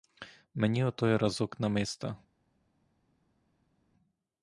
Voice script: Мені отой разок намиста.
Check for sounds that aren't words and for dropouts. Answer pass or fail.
pass